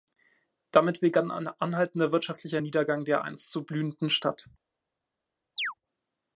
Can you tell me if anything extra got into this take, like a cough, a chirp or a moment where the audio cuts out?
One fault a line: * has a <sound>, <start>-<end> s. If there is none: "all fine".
* has a chirp, 5.6-5.7 s